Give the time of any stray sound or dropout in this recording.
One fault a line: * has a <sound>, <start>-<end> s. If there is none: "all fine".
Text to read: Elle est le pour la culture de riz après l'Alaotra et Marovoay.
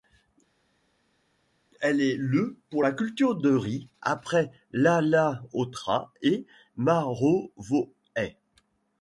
all fine